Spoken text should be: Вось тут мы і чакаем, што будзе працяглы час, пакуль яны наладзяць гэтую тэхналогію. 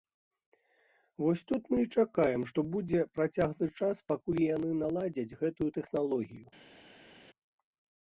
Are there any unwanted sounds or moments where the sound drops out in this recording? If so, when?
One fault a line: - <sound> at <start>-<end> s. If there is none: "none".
none